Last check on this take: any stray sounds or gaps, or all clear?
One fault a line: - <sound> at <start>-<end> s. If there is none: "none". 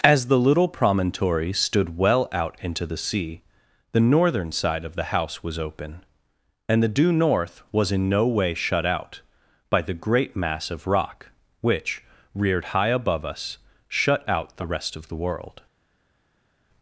none